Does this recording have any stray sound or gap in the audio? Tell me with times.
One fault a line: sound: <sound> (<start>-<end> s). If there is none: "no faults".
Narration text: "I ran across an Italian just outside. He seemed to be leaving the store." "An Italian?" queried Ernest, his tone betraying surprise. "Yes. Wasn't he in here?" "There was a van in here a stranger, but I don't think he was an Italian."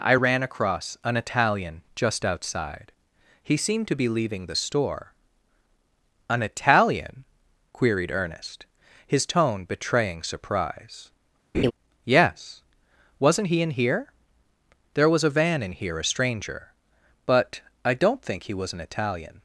sound: laugh (11.5-11.7 s)